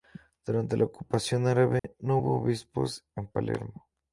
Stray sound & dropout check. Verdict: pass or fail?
fail